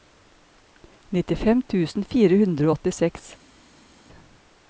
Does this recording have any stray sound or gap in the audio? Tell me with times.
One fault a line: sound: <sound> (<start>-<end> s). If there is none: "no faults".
no faults